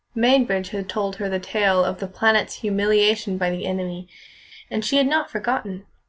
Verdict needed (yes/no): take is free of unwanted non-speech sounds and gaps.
yes